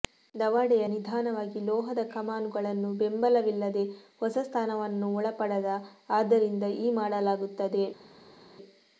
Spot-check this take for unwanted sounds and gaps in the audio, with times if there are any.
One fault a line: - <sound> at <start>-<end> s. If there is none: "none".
none